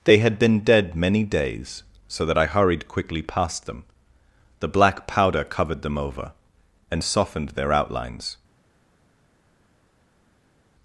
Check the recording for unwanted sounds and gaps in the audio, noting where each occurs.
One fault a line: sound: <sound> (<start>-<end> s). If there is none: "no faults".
no faults